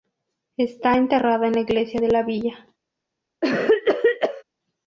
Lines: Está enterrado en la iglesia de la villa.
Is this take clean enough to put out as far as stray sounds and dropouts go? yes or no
no